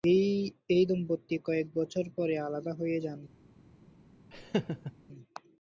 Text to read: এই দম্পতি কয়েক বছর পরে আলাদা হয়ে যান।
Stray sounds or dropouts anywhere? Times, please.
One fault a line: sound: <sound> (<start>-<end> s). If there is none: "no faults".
sound: laugh (4.3-4.9 s)